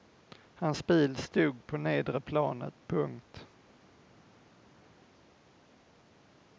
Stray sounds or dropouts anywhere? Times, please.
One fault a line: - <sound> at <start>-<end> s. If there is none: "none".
none